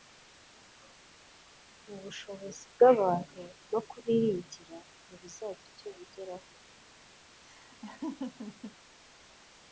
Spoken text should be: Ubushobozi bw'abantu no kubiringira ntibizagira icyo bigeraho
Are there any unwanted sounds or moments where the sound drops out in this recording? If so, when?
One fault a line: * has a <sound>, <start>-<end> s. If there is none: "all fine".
* has a laugh, 7.4-8.8 s